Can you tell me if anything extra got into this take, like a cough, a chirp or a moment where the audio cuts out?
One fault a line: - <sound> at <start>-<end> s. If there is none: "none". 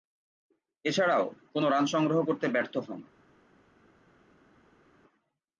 none